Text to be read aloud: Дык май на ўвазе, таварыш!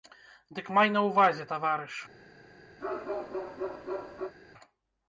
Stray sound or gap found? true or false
true